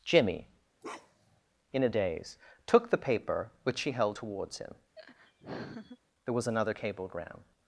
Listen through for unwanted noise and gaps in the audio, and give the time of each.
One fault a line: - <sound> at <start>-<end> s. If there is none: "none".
- bark at 0.8-1.4 s
- laugh at 5.0-6.0 s